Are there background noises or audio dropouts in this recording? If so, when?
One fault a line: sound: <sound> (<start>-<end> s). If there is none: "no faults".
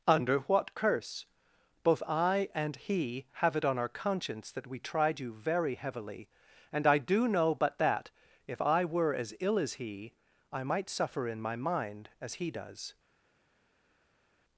no faults